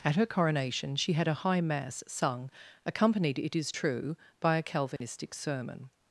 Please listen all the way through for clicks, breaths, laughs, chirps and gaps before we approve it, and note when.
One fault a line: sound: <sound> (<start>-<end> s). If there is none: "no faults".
sound: dropout (5.0-5.0 s)